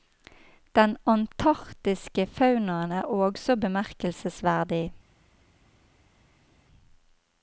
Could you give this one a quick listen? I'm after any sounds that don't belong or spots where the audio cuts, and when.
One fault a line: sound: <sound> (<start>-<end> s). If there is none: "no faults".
no faults